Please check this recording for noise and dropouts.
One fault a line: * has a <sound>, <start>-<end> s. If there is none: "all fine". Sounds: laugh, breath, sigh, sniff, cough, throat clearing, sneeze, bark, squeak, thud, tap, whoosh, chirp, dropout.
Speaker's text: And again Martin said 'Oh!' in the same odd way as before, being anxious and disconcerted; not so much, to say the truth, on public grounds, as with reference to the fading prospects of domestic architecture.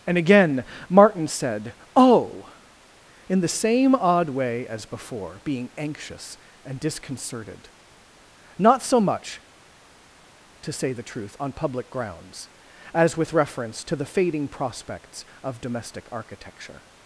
all fine